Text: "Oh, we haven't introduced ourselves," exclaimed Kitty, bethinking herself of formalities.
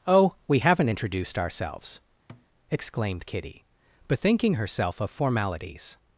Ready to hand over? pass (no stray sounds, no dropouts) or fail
fail